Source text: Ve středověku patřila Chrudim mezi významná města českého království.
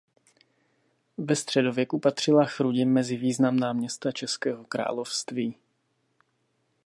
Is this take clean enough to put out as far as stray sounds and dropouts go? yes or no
yes